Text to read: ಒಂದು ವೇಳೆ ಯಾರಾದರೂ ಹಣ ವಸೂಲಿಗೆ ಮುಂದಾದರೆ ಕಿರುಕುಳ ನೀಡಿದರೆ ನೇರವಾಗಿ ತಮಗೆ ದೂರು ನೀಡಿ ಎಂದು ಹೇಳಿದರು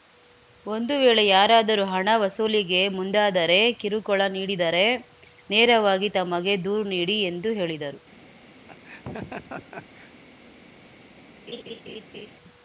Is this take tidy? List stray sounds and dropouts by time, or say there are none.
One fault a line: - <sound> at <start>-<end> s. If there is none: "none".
- laugh at 8.7-10.1 s
- laugh at 11.5-12.3 s